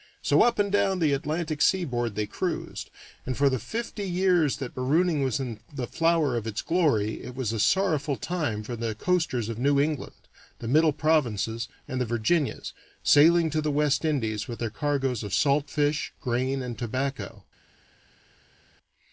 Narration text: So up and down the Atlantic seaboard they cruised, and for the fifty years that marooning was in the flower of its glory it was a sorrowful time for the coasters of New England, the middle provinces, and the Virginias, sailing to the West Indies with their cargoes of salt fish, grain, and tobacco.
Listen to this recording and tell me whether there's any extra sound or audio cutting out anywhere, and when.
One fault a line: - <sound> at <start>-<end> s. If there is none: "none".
none